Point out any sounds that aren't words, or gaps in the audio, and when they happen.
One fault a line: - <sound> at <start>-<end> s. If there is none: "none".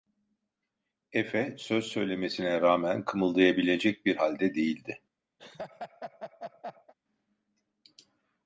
- laugh at 5.4-6.9 s